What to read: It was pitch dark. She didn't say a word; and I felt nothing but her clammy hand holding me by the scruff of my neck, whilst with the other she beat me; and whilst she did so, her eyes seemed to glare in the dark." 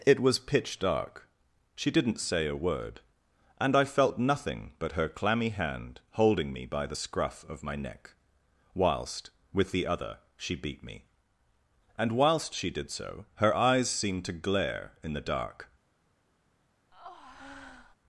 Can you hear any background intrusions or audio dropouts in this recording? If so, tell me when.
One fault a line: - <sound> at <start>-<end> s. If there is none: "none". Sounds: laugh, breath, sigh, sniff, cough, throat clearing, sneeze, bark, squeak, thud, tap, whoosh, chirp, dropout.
- breath at 16.9-18.0 s